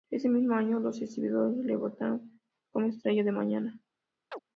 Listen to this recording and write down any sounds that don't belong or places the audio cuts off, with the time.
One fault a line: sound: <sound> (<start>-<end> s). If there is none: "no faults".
sound: chirp (4.3-4.4 s)